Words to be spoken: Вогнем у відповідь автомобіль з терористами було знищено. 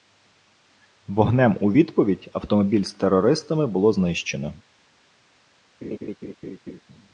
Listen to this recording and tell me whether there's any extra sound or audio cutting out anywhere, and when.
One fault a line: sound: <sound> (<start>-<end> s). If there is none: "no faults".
sound: laugh (5.8-6.8 s)